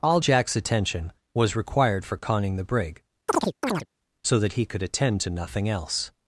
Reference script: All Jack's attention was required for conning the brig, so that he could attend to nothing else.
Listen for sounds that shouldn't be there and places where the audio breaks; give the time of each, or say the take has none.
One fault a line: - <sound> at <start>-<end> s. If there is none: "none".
- chirp at 3.3-3.9 s